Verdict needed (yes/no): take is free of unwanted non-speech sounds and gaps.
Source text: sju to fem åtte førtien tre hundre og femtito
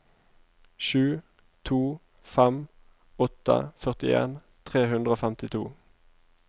yes